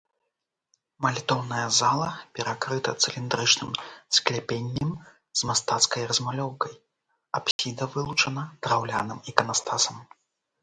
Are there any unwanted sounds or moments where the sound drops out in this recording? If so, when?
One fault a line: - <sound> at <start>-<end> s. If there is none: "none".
- dropout at 7.5-7.6 s